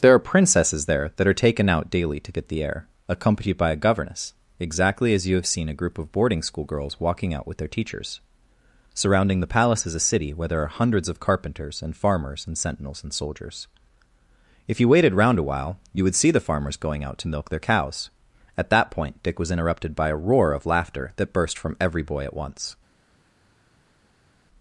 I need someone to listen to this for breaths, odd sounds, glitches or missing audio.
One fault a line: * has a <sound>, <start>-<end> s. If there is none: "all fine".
all fine